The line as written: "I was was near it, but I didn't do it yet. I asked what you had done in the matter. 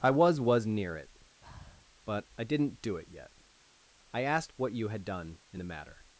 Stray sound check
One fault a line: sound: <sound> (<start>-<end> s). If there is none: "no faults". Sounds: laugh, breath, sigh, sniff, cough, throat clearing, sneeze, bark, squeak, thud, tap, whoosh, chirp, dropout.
sound: breath (1.4-1.8 s)